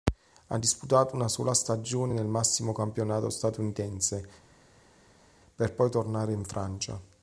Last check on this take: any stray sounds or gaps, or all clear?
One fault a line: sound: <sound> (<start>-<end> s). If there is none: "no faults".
no faults